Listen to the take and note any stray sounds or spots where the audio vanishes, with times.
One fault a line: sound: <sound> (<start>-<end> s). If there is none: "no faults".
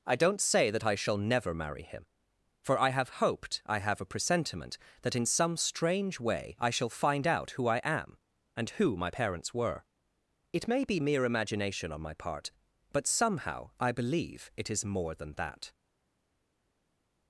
no faults